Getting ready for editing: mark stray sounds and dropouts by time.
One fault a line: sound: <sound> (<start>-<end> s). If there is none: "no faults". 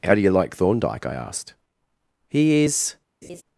sound: laugh (3.2-3.4 s)